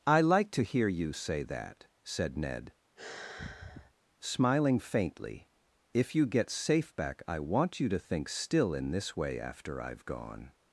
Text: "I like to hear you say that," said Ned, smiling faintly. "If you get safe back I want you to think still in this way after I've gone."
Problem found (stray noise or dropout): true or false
true